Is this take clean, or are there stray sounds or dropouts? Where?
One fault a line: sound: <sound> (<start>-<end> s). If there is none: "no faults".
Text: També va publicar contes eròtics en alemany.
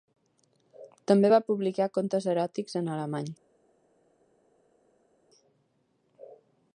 no faults